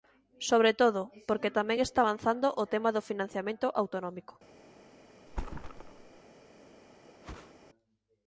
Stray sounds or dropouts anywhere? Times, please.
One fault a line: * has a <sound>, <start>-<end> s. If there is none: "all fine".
* has a thud, 5.3-6.2 s
* has a whoosh, 7.2-7.5 s